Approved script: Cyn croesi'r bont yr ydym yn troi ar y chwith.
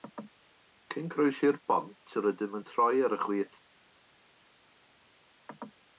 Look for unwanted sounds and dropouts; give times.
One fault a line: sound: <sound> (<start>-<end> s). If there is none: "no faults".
no faults